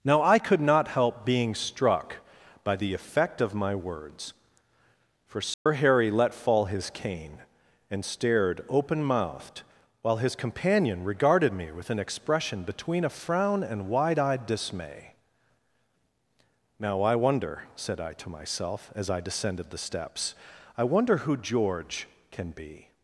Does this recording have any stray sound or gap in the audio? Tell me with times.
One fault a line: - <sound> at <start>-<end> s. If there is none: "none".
- dropout at 5.5-5.7 s